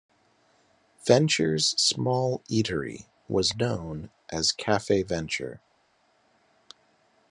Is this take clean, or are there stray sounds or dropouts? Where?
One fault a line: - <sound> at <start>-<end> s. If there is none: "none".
none